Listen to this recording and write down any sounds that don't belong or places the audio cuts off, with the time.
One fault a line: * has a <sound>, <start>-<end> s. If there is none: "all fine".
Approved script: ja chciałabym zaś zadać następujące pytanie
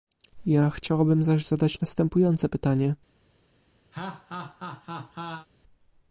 * has a laugh, 3.9-5.5 s